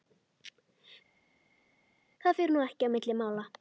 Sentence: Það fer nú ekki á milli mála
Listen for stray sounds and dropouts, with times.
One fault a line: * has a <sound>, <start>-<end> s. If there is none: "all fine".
all fine